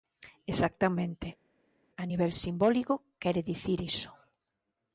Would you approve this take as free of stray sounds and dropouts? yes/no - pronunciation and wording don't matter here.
yes